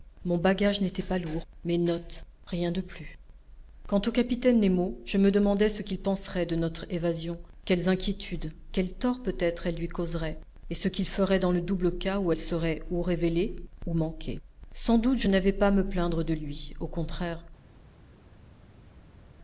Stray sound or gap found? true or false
false